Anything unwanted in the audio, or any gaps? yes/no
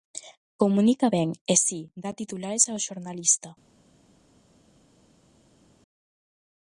no